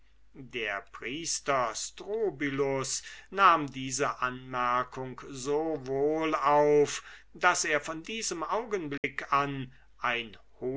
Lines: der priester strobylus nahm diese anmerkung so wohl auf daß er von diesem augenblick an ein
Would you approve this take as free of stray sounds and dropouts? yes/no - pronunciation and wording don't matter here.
no